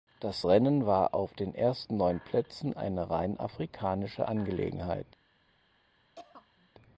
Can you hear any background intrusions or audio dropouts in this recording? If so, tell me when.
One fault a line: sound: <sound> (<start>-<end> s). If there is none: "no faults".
sound: throat clearing (6.2-6.7 s)